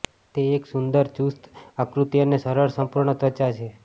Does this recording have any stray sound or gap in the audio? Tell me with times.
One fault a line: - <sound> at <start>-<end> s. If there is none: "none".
none